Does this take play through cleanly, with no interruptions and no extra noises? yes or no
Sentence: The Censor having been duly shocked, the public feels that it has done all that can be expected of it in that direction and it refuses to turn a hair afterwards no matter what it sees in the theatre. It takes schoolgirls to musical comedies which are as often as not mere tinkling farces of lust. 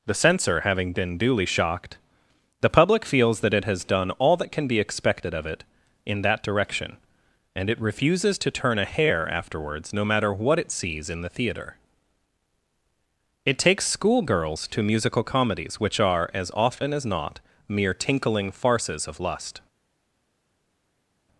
yes